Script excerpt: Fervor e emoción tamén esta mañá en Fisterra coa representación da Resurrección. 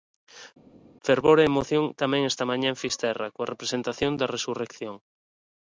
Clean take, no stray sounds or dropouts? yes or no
yes